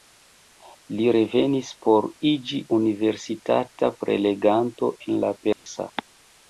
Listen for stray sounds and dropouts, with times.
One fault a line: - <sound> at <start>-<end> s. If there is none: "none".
- dropout at 5.5-5.7 s